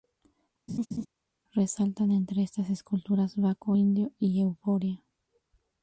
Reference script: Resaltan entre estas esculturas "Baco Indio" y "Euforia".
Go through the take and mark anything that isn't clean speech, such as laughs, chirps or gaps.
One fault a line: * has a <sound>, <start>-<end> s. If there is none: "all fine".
* has a laugh, 0.7-1.1 s